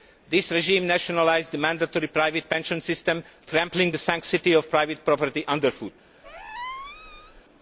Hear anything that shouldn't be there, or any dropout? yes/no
yes